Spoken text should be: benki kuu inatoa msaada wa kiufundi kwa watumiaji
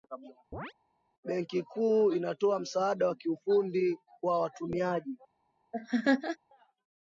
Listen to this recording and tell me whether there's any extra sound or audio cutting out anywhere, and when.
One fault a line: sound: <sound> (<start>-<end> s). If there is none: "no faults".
sound: chirp (0.5-0.7 s)
sound: laugh (5.7-6.4 s)